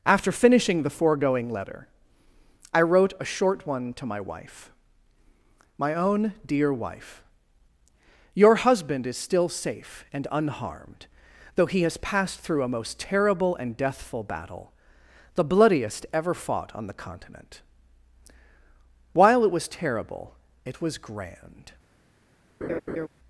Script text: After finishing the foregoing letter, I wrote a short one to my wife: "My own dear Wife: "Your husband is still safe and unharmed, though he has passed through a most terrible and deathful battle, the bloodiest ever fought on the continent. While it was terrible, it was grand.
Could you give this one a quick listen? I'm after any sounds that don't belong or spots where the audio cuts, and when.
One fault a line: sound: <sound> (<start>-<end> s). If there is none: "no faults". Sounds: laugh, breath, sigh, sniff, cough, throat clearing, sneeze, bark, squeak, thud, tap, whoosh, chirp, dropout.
sound: laugh (22.6-23.1 s)